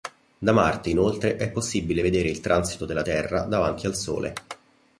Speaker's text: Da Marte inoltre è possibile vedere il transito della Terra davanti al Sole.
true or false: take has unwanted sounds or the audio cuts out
false